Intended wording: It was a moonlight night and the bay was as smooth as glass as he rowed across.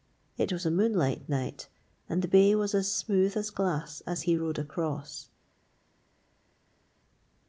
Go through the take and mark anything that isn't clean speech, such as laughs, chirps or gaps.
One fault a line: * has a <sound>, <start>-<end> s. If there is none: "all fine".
all fine